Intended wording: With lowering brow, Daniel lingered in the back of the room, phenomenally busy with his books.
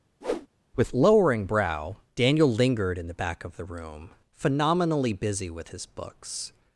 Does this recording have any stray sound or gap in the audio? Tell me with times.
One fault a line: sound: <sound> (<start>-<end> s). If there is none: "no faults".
sound: whoosh (0.2-0.5 s)